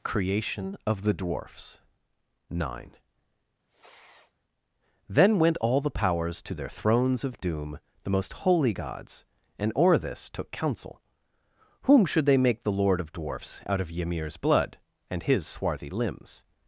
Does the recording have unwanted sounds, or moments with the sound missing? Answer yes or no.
yes